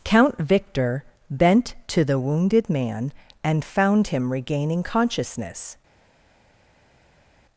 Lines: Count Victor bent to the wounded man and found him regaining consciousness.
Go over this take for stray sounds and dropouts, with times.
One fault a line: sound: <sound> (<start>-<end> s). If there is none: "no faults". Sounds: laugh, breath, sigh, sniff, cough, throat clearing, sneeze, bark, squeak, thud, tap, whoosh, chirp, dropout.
no faults